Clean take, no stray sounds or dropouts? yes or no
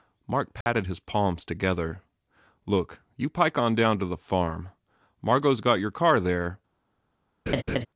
no